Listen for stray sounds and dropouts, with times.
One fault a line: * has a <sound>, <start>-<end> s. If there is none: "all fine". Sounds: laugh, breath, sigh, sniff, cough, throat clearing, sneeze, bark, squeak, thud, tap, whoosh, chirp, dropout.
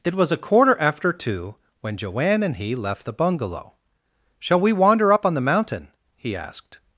all fine